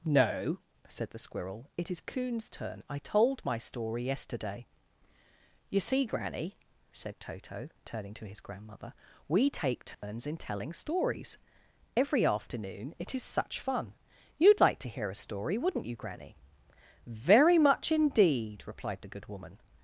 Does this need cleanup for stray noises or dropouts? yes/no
yes